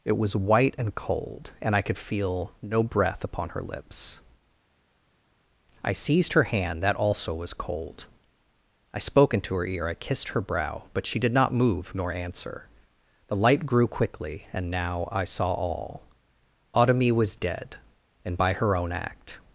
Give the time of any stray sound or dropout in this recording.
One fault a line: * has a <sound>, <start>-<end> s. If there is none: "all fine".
all fine